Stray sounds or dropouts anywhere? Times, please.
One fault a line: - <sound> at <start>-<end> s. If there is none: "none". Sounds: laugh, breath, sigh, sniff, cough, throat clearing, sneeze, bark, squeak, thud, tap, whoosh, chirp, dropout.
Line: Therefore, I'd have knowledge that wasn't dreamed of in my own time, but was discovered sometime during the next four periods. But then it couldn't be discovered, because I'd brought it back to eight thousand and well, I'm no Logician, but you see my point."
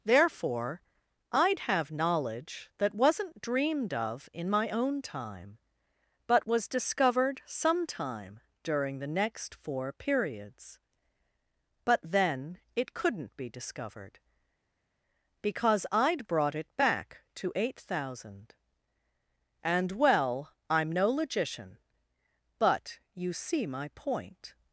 none